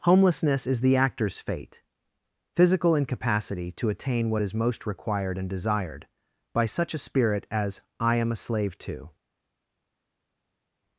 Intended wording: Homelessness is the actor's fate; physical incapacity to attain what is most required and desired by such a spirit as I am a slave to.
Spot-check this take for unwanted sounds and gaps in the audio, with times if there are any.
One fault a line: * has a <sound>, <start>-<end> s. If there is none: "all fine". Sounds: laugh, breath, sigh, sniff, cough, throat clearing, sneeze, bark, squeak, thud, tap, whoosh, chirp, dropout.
all fine